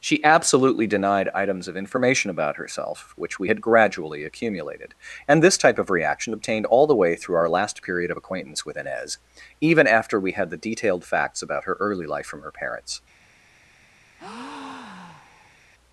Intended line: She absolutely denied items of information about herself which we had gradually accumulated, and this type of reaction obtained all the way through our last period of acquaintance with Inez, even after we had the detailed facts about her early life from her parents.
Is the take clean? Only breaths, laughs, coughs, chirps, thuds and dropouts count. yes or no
no